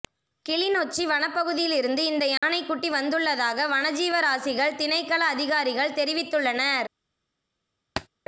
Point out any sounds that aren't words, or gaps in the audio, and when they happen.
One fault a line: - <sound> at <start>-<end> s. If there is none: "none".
- dropout at 2.4-2.4 s
- thud at 8.0-8.1 s